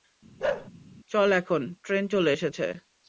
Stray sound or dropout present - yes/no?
yes